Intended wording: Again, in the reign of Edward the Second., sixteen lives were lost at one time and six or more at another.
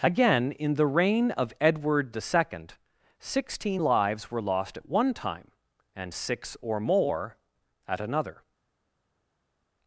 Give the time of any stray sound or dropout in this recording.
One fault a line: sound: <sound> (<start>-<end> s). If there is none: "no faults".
no faults